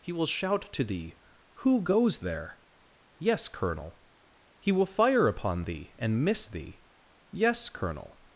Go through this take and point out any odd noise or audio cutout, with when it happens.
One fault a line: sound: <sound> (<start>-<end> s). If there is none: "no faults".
no faults